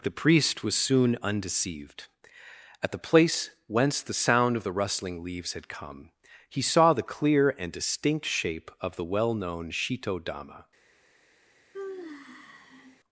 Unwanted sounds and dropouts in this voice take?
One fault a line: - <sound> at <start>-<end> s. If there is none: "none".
- sigh at 11.7-13.0 s